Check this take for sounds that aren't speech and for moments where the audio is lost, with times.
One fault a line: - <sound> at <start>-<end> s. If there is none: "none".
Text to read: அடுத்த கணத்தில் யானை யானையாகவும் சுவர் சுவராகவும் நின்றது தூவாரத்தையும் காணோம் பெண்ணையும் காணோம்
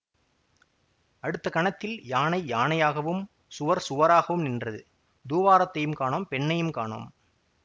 none